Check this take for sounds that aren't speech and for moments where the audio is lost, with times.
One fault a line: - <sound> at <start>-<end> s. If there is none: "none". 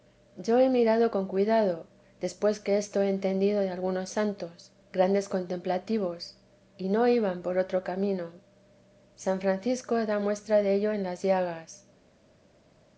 none